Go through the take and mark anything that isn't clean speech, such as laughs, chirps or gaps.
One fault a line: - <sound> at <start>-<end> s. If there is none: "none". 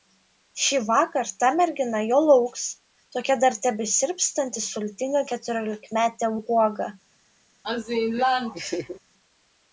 - laugh at 7.6-9.0 s